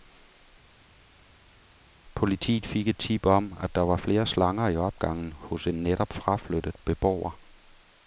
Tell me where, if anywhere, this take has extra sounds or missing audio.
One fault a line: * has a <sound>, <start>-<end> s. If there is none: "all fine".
all fine